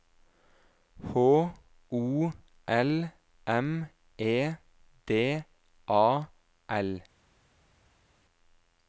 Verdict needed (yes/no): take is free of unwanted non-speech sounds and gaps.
yes